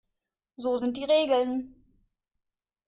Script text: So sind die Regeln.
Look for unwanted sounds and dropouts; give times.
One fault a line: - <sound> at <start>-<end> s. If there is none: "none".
none